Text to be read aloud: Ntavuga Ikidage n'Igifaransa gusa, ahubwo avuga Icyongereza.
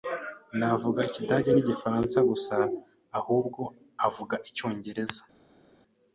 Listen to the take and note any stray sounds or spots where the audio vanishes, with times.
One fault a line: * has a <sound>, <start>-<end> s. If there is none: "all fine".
all fine